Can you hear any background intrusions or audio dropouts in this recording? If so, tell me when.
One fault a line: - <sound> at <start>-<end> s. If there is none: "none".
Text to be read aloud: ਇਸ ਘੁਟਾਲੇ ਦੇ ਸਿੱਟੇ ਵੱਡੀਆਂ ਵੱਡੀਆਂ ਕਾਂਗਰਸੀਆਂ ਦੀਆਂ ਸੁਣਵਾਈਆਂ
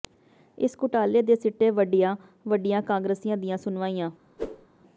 - whoosh at 4.4-4.7 s